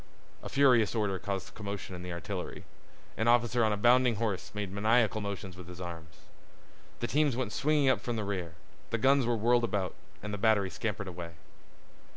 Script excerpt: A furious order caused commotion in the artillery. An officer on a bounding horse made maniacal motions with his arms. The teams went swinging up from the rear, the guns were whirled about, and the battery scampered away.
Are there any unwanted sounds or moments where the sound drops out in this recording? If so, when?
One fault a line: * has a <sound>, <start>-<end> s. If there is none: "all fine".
all fine